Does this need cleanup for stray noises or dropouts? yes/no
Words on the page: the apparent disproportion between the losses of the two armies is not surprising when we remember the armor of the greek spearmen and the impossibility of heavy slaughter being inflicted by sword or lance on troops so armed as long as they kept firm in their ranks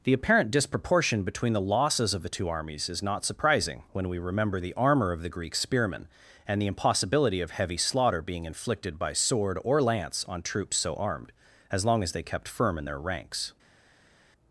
no